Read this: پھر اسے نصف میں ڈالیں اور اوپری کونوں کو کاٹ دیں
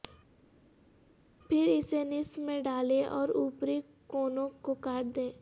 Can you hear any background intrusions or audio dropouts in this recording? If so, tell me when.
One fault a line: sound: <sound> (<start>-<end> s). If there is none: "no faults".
no faults